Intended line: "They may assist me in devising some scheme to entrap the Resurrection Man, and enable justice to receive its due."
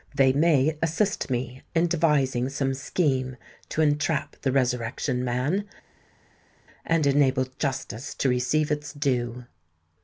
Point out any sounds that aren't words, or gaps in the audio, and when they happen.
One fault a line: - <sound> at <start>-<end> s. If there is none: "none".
none